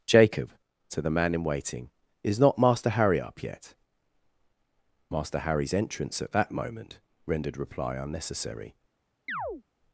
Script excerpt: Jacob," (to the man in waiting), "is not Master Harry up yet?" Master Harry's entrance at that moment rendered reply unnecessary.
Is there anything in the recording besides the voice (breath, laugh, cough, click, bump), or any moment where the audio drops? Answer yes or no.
yes